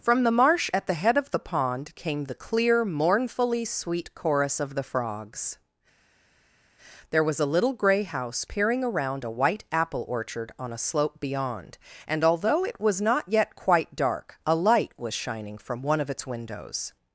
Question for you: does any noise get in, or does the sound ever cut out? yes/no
no